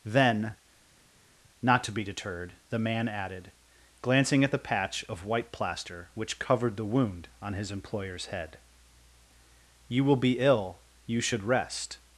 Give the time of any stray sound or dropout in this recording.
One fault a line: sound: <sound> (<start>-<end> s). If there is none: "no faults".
no faults